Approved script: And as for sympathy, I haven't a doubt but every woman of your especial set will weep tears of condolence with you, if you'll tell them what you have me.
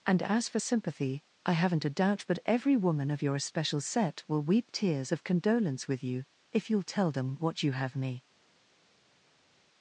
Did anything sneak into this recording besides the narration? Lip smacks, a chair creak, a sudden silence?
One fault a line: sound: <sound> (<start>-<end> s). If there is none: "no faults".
no faults